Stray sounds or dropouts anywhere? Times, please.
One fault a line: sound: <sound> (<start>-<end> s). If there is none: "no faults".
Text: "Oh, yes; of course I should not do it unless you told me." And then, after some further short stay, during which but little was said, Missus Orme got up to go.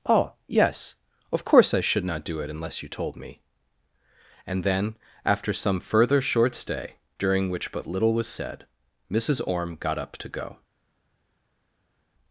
no faults